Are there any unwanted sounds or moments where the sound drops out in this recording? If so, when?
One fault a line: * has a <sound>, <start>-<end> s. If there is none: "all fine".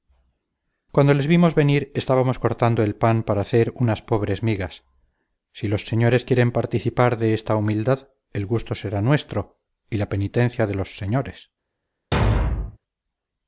* has a thud, 12.1-12.8 s